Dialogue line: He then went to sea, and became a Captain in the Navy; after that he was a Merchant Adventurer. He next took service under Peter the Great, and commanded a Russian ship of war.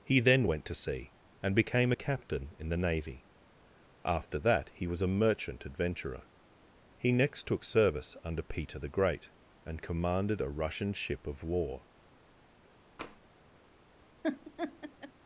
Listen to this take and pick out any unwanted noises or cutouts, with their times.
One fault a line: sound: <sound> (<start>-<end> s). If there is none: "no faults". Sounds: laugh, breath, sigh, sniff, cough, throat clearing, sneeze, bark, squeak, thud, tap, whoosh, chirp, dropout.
sound: tap (13.0-13.2 s)
sound: laugh (14.2-15.1 s)